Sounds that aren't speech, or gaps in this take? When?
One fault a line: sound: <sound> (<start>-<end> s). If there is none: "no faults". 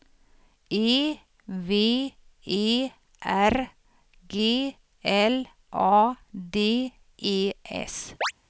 sound: chirp (8.2-8.3 s)